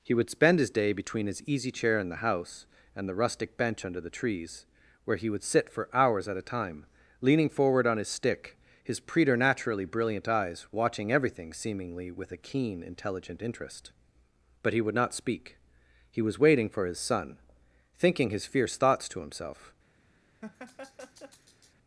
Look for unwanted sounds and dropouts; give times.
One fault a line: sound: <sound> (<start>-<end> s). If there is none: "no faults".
sound: laugh (20.4-21.7 s)